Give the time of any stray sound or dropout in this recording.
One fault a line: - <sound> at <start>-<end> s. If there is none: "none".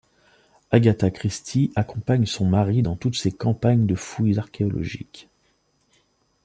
none